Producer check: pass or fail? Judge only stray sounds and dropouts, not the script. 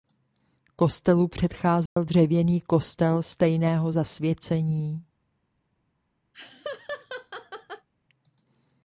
fail